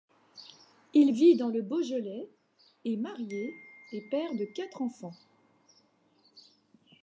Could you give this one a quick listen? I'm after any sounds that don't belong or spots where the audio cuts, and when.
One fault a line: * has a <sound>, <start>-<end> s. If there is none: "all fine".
all fine